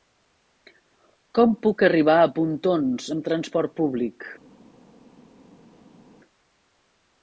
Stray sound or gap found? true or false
false